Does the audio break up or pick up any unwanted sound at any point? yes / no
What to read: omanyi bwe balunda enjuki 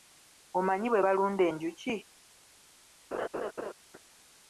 yes